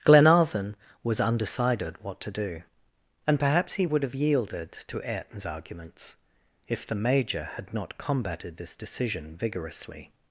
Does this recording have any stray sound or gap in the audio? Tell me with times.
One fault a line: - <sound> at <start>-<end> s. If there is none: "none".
none